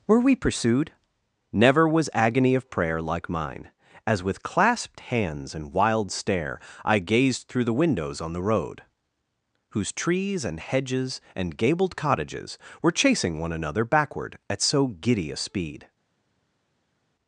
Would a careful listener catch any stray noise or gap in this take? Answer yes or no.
no